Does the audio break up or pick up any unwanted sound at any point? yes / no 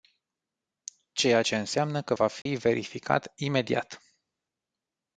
yes